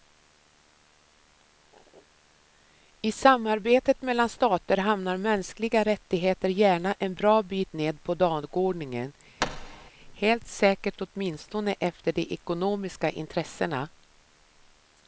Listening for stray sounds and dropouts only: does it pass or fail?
fail